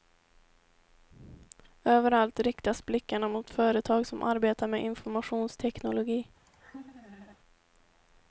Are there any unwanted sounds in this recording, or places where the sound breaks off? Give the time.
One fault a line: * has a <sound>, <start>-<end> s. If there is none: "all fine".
* has a laugh, 6.5-7.4 s